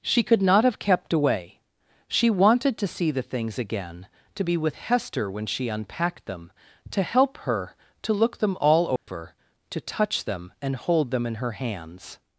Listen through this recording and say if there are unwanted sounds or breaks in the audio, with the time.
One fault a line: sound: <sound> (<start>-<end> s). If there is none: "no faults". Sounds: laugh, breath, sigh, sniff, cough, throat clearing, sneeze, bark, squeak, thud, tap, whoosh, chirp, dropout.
sound: dropout (9.0-9.1 s)